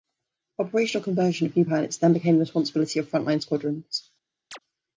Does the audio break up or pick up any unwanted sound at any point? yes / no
yes